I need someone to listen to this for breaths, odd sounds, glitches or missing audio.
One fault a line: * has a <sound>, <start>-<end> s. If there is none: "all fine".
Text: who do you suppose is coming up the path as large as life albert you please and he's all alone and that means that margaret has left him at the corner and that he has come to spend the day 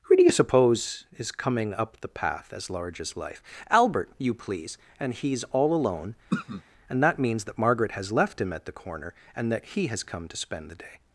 * has a throat clearing, 6.3-6.6 s